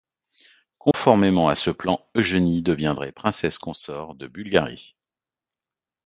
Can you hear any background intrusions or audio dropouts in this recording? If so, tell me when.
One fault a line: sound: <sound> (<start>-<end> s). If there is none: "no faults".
sound: dropout (0.9-0.9 s)